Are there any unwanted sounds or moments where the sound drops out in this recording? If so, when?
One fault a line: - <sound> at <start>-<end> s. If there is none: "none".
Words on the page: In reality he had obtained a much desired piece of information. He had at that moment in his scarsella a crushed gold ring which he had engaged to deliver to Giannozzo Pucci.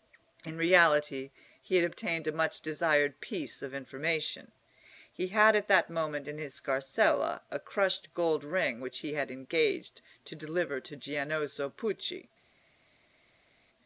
none